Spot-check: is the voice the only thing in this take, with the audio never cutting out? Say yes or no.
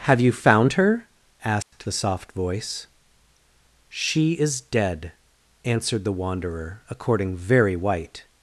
no